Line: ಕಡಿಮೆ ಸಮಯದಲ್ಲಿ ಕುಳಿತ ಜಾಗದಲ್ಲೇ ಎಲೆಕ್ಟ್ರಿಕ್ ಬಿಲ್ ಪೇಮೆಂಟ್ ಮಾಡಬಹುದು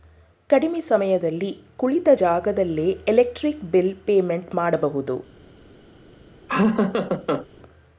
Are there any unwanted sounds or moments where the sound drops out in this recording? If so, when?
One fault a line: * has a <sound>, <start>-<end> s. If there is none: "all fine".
* has a laugh, 6.5-7.5 s